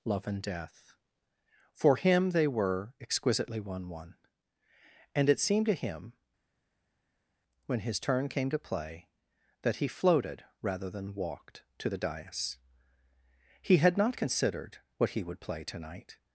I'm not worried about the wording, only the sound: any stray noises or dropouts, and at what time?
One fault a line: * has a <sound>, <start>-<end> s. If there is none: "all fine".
all fine